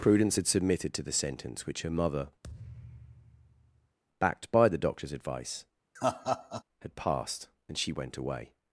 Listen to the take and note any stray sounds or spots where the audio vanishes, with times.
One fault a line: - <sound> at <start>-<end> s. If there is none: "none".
- thud at 2.4-4.0 s
- laugh at 6.0-6.6 s